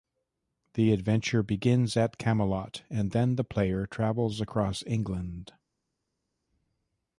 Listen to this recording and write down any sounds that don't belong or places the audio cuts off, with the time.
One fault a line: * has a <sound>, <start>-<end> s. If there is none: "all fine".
all fine